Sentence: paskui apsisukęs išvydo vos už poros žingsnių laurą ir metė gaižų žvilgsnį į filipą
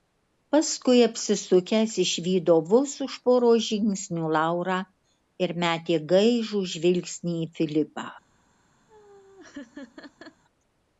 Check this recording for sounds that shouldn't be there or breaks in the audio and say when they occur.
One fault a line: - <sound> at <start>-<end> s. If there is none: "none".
- laugh at 8.9-10.4 s